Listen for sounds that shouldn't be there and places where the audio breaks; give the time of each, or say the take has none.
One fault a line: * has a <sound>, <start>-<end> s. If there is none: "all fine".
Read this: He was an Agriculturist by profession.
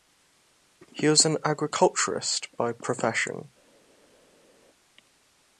all fine